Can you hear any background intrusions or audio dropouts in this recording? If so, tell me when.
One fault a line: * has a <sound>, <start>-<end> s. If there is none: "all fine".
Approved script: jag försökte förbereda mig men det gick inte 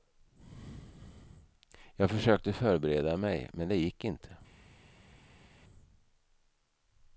all fine